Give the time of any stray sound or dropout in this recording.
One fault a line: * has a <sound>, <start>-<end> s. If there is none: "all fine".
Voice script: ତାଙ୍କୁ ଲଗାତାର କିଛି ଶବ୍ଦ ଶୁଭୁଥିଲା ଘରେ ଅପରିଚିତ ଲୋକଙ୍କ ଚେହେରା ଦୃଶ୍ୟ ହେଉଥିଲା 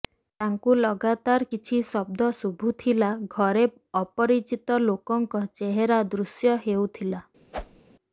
* has a whoosh, 7.5-7.8 s